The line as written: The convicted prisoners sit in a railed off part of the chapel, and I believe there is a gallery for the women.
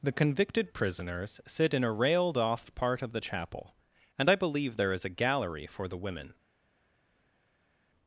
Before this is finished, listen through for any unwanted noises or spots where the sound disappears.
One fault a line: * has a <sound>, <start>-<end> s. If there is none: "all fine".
all fine